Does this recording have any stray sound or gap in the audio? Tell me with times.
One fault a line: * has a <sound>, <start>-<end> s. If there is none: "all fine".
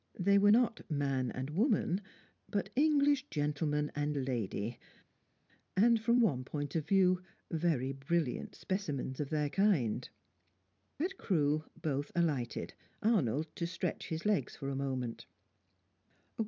all fine